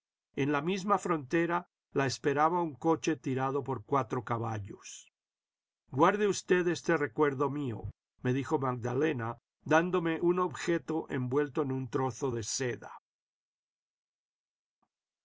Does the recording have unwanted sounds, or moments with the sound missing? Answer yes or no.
no